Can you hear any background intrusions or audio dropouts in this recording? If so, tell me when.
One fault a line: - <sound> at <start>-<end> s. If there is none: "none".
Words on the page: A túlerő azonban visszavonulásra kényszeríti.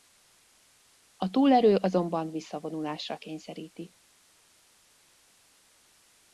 none